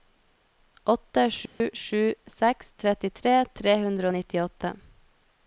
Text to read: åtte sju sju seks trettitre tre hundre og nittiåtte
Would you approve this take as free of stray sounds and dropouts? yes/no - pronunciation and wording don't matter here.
no